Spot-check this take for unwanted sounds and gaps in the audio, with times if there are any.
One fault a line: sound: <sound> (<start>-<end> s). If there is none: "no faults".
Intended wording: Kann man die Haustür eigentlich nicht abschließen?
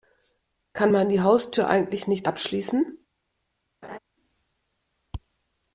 sound: laugh (3.8-4.0 s)